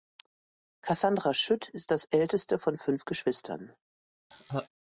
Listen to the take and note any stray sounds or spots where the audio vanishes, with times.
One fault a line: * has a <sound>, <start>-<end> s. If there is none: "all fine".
* has a laugh, 4.3-4.7 s